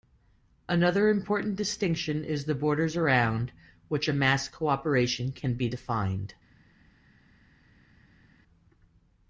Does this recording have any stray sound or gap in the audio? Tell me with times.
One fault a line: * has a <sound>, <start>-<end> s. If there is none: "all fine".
all fine